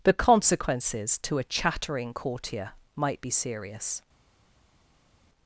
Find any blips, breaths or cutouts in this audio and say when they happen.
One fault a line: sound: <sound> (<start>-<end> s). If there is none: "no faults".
no faults